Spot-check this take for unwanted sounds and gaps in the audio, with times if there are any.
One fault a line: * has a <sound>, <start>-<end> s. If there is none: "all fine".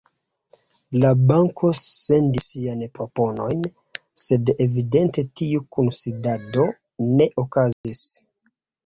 * has a dropout, 7.7-7.8 s